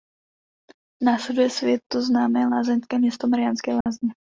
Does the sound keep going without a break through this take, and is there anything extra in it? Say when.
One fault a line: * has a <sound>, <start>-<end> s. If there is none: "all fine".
* has a dropout, 3.8-3.9 s